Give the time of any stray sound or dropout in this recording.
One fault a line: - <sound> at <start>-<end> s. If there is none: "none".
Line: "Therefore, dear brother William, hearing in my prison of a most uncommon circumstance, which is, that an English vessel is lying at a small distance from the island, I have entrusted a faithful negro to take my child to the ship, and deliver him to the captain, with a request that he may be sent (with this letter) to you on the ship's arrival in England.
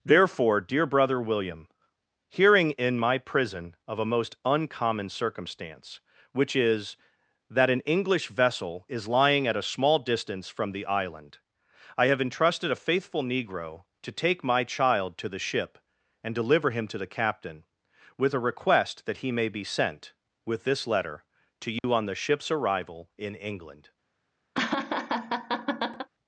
- dropout at 21.8-21.8 s
- laugh at 24.5-26.1 s